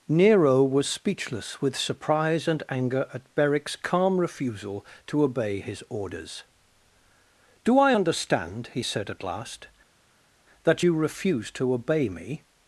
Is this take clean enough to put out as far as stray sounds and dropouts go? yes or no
yes